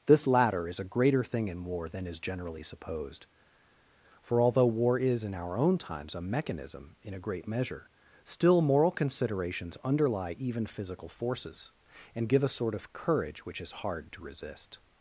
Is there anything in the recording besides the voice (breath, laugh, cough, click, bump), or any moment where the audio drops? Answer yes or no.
no